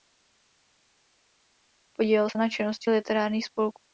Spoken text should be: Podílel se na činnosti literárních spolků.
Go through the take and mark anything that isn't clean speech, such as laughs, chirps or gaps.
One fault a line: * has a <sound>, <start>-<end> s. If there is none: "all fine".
all fine